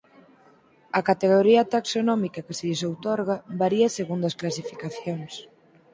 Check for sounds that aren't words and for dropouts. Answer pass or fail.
pass